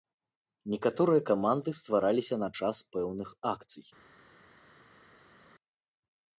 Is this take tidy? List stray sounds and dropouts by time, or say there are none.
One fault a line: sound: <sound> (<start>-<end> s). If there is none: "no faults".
no faults